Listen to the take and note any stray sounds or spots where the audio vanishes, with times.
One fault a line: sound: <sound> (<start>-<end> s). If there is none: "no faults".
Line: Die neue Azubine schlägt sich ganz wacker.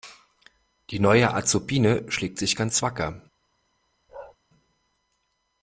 sound: bark (4.1-4.4 s)